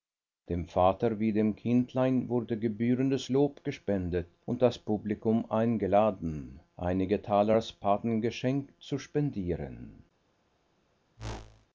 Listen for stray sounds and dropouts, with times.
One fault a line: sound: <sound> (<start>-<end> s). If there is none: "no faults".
sound: whoosh (11.2-11.7 s)